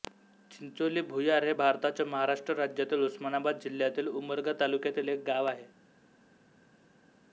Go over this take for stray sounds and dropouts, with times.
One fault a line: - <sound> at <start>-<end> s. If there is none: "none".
none